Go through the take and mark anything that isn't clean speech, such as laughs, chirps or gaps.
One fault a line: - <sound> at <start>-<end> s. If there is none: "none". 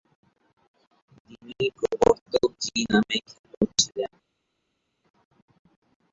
none